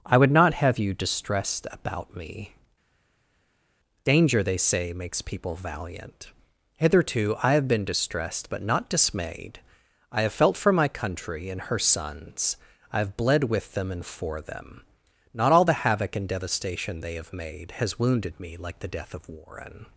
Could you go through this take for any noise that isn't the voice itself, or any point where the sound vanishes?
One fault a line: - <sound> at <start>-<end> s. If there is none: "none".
none